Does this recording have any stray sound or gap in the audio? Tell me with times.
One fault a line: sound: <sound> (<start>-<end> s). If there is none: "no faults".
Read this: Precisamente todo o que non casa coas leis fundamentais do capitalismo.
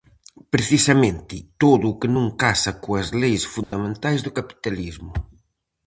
sound: dropout (3.6-3.7 s)